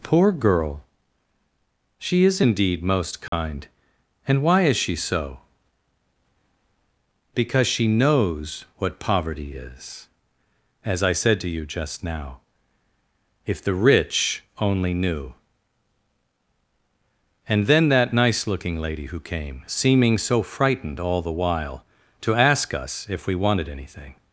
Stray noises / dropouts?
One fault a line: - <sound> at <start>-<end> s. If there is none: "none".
- dropout at 3.3-3.3 s